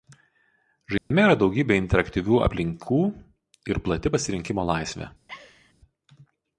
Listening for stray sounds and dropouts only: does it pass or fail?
fail